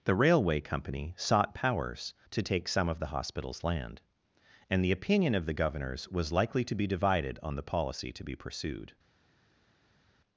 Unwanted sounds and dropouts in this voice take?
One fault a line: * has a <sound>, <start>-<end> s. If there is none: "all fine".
all fine